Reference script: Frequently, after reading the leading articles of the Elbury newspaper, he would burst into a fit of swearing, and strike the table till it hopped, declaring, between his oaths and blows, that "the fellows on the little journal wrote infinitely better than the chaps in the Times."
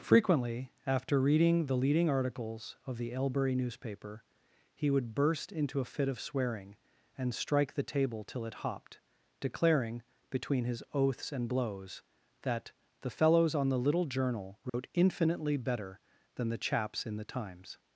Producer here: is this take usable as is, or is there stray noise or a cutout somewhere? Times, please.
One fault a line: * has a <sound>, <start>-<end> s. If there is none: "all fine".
* has a dropout, 14.7-14.7 s